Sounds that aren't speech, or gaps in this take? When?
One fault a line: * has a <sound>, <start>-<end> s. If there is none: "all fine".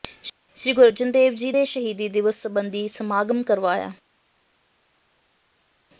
all fine